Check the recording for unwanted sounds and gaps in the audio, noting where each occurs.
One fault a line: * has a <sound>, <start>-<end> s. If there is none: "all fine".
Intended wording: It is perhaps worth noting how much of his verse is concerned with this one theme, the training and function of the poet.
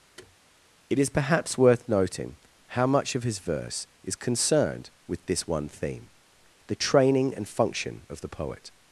* has a thud, 0.2-0.4 s